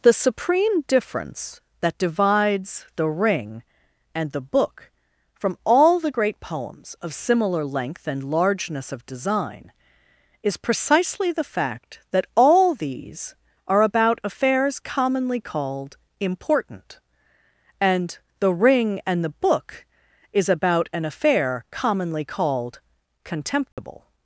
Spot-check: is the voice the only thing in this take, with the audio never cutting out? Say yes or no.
no